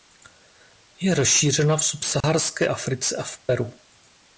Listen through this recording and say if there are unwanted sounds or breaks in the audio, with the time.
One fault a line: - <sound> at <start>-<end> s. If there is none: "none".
- dropout at 2.2-2.2 s